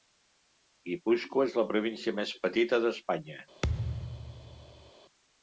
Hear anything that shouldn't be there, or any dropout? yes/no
yes